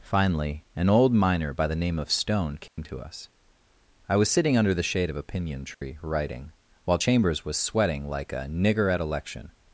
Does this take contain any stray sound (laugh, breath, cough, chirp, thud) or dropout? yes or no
yes